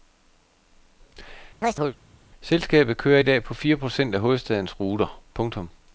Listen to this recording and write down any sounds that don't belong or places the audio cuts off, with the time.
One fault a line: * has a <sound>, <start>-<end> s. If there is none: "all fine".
* has a chirp, 1.6-2.0 s